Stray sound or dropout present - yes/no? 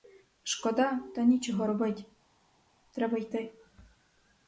no